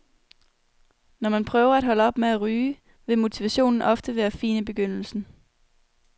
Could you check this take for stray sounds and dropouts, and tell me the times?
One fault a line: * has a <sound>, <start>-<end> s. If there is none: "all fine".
all fine